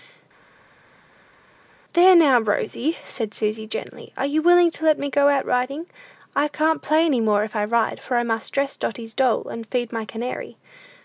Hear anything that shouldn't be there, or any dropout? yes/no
no